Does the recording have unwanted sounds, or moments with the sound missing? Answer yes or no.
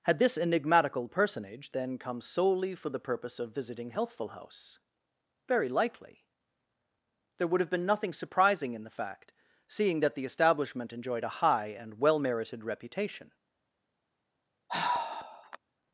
yes